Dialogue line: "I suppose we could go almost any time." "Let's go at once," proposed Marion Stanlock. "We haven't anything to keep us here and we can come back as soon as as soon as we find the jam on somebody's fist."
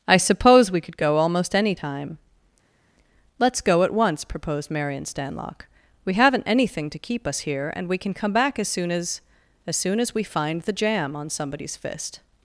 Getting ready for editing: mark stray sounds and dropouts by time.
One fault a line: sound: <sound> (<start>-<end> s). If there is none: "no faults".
no faults